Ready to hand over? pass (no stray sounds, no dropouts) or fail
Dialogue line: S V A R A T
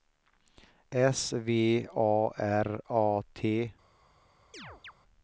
fail